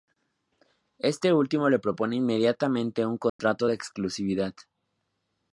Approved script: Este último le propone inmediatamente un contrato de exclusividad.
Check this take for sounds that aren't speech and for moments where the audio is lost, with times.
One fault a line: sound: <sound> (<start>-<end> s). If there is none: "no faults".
sound: dropout (3.3-3.4 s)